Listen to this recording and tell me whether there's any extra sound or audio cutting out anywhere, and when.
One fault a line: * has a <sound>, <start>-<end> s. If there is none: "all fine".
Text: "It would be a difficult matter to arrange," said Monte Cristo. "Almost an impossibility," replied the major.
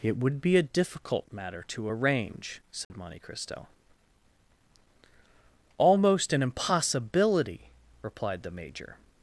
* has a dropout, 2.8-2.9 s